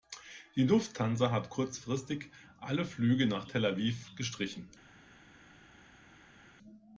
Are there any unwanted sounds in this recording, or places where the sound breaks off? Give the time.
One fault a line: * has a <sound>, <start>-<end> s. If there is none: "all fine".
all fine